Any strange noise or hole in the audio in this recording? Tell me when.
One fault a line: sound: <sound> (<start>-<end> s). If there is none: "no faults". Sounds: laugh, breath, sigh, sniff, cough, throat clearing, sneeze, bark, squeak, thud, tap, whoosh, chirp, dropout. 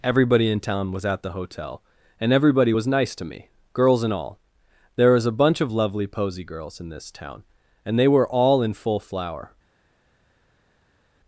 no faults